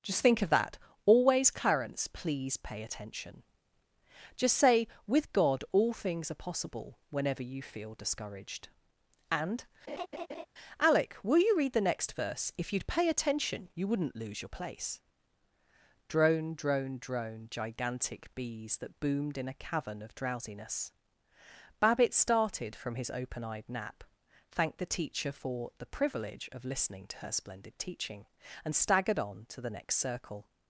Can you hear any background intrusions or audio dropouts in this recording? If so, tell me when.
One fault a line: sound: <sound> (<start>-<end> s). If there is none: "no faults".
sound: laugh (9.9-10.5 s)